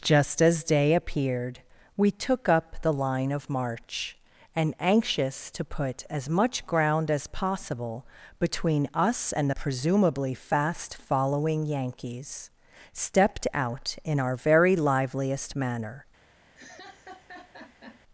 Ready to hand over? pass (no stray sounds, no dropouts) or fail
fail